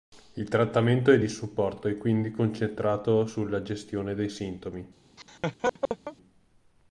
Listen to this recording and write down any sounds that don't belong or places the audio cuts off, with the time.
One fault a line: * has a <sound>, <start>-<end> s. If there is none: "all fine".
* has a laugh, 5.2-6.2 s